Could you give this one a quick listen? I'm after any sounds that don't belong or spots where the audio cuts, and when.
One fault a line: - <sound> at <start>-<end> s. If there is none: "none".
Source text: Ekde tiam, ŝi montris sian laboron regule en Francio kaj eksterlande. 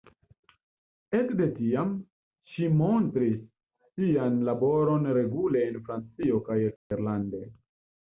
- dropout at 6.8-6.9 s